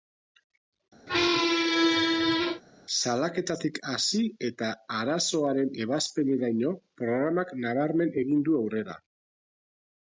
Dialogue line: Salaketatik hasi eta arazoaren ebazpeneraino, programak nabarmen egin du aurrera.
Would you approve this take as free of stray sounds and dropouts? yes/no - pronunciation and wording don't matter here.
no